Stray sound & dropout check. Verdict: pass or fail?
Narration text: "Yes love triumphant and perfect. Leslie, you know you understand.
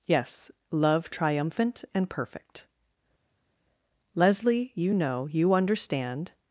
pass